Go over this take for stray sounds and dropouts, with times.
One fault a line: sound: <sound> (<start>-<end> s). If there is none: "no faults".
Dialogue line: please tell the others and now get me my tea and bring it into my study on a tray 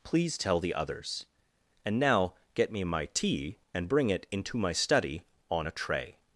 no faults